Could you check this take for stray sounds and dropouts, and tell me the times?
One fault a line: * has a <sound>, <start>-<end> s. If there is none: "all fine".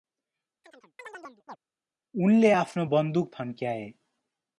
* has a chirp, 0.6-1.6 s